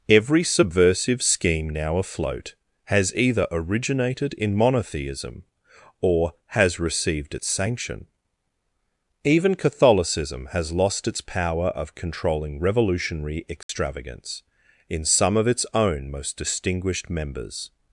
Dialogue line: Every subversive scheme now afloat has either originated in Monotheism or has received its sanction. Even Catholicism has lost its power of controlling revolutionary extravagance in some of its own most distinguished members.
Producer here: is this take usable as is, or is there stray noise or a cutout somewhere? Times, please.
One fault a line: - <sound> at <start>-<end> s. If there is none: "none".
- dropout at 13.6-13.7 s